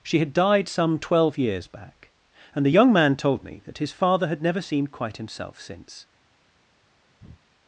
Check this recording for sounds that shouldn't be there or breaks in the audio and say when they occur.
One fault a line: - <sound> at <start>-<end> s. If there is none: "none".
- breath at 7.2-7.4 s